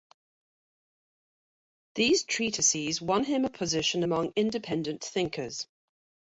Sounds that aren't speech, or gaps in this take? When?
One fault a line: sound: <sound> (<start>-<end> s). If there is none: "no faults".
no faults